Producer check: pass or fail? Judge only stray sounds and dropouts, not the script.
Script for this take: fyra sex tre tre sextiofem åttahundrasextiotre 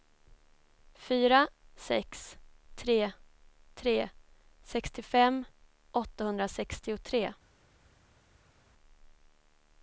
pass